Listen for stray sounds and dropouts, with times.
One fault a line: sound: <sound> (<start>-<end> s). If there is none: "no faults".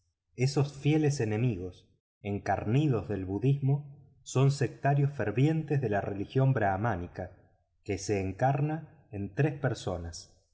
no faults